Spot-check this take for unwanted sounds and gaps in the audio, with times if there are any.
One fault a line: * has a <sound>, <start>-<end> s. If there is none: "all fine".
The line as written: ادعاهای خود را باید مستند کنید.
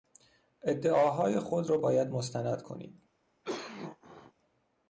* has a cough, 3.4-4.3 s